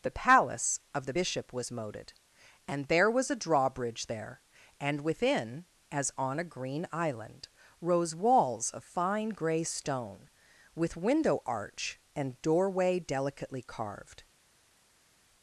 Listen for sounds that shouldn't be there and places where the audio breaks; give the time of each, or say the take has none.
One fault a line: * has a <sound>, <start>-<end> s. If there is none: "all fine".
all fine